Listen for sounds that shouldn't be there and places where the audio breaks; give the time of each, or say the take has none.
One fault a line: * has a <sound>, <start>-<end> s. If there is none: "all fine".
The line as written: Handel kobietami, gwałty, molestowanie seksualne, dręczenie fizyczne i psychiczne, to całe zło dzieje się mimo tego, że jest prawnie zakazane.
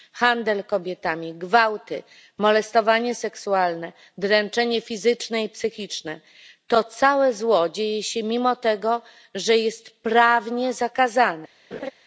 * has a laugh, 11.7-11.9 s